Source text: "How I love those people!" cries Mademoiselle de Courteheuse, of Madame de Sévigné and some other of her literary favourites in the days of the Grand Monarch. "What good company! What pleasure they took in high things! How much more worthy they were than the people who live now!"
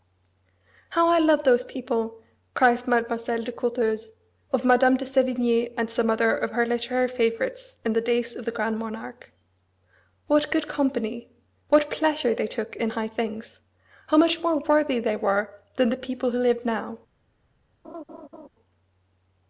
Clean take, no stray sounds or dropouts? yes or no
no